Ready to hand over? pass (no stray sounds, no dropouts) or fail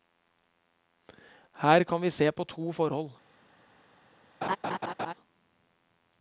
fail